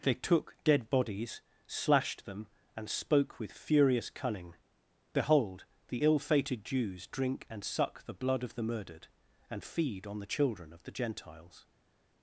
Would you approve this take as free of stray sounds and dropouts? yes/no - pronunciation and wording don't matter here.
yes